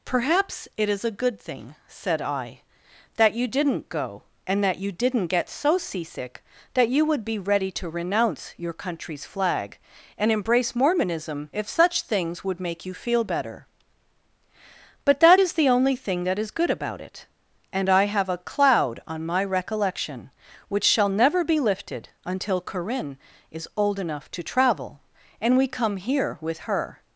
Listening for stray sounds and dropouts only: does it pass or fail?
pass